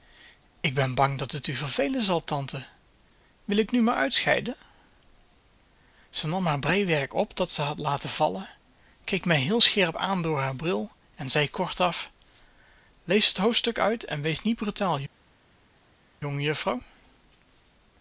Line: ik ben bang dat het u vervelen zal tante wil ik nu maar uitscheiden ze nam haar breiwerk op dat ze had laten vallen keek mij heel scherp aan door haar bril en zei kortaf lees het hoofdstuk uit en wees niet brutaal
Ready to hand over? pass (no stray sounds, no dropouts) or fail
pass